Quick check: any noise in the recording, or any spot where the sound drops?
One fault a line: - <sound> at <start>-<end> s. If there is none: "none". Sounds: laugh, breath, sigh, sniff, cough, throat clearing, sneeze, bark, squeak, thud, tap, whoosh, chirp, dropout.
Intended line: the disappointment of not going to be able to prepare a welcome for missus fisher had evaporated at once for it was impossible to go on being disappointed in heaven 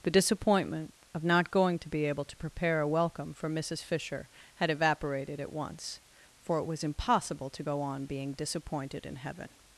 none